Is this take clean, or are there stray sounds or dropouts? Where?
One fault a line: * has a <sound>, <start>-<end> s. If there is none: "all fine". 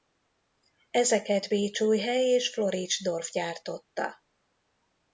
all fine